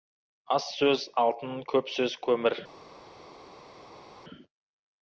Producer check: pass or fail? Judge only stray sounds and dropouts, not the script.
pass